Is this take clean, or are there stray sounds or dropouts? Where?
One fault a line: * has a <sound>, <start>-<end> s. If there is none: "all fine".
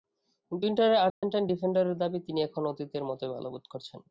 * has a dropout, 1.1-1.2 s